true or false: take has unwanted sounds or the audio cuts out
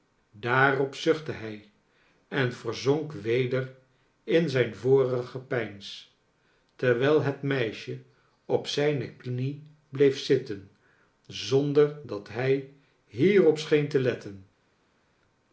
false